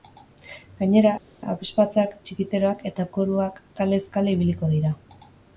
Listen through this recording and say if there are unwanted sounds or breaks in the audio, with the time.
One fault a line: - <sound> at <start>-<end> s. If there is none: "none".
none